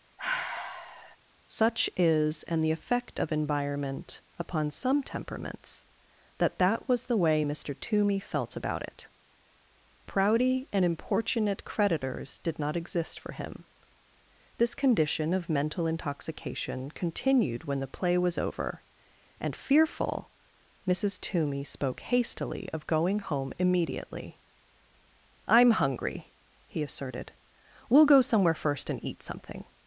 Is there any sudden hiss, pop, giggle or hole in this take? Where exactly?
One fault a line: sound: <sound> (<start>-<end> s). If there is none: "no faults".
sound: sigh (0.2-1.2 s)